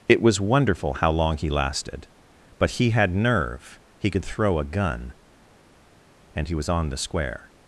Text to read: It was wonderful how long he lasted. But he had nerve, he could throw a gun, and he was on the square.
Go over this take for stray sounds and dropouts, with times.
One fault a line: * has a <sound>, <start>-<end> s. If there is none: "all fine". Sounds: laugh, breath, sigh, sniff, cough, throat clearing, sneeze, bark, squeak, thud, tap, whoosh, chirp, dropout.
all fine